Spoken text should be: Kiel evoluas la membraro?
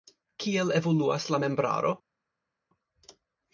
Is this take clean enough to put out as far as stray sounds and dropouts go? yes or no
yes